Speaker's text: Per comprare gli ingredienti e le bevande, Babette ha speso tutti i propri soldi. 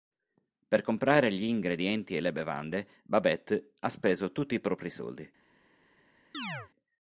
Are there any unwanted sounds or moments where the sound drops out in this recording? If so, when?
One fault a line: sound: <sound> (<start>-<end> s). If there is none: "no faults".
sound: chirp (6.3-6.7 s)